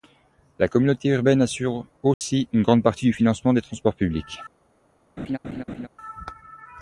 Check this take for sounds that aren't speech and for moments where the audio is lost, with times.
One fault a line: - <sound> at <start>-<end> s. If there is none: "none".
- dropout at 2.1-2.2 s
- laugh at 5.2-5.9 s